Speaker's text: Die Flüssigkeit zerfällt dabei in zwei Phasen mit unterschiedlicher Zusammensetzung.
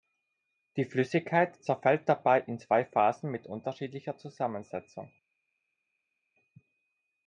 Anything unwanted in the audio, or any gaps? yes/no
no